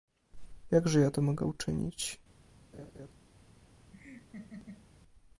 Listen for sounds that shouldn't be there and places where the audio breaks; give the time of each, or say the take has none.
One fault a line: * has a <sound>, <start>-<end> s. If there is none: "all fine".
* has a laugh, 2.7-3.1 s
* has a laugh, 3.9-4.9 s